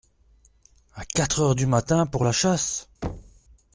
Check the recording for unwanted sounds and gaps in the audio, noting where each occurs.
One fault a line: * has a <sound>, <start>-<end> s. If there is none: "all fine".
* has a thud, 3.0-3.4 s